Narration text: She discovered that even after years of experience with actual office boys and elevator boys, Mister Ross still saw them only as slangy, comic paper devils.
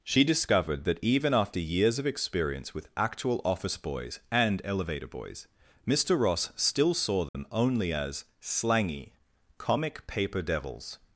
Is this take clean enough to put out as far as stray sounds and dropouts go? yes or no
no